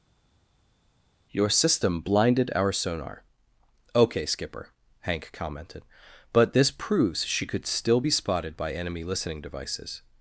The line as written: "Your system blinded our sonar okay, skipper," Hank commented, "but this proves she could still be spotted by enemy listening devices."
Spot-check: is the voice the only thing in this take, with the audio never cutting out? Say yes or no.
yes